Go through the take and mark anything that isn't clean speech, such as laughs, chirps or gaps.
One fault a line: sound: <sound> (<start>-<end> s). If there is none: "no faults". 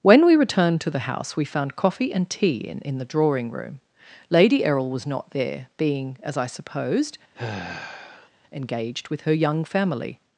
sound: sigh (7.3-8.3 s)